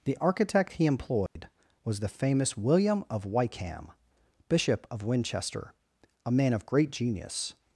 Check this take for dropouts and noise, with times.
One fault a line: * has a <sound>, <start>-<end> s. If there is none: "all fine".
* has a dropout, 1.3-1.4 s